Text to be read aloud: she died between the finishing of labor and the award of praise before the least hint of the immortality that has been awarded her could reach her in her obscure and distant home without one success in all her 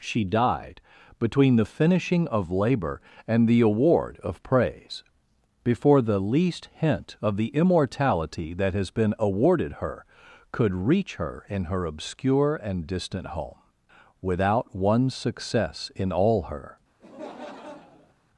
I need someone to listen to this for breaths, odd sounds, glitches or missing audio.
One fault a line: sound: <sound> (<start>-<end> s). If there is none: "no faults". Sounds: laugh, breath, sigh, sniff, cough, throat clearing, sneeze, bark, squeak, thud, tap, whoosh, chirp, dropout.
sound: laugh (17.0-18.1 s)